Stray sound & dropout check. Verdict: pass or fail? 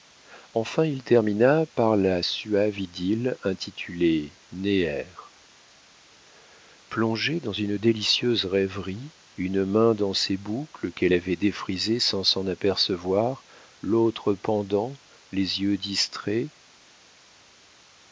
pass